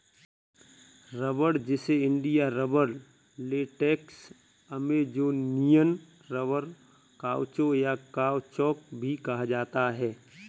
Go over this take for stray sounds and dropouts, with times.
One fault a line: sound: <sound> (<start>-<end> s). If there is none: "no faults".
no faults